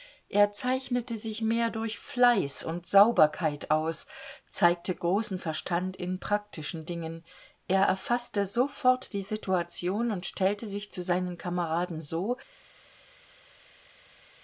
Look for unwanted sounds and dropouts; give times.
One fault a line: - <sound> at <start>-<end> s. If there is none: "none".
none